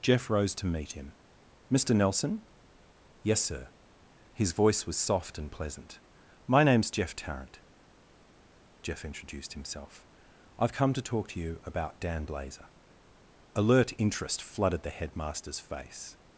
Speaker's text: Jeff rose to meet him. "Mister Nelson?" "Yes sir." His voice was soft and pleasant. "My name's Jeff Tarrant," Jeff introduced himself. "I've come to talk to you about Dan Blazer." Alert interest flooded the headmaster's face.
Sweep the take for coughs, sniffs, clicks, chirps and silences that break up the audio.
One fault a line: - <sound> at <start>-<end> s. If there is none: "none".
none